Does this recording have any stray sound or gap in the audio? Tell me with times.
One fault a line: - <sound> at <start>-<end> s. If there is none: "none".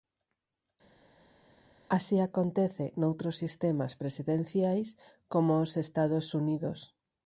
none